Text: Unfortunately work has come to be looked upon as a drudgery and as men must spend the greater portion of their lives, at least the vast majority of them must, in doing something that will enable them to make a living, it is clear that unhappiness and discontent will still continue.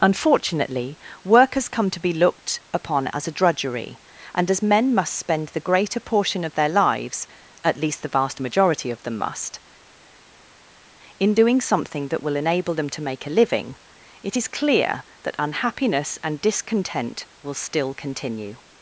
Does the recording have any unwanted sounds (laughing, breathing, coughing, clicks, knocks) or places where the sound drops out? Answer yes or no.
no